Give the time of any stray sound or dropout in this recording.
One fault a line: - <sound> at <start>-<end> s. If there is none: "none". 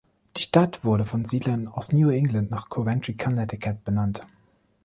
none